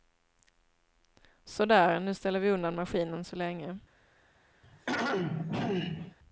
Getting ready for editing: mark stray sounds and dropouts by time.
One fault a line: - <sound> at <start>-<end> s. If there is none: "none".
- throat clearing at 4.6-6.2 s